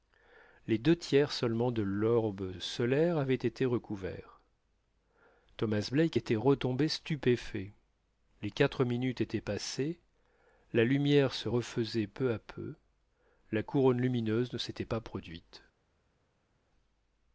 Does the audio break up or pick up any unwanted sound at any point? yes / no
no